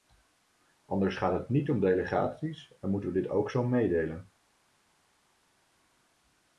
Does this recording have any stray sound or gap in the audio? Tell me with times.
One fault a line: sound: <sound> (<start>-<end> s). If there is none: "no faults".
no faults